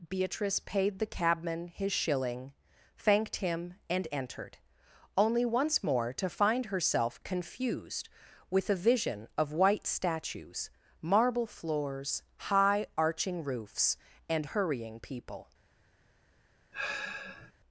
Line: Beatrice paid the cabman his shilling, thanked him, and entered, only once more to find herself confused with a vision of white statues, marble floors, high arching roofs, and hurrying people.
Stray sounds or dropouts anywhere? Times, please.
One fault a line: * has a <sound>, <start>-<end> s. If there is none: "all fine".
* has a sigh, 16.7-17.5 s